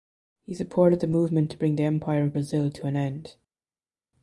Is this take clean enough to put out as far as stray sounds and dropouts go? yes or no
yes